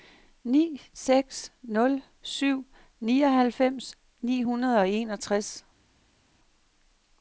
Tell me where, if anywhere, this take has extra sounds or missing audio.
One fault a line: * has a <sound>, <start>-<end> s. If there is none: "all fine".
all fine